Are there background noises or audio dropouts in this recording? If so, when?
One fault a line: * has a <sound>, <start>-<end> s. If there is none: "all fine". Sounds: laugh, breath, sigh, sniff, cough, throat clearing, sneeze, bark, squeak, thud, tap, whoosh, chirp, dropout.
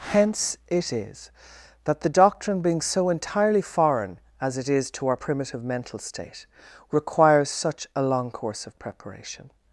all fine